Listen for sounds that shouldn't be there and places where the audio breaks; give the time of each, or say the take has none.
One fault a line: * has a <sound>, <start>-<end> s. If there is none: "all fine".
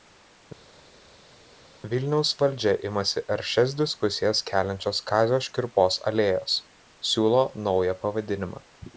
all fine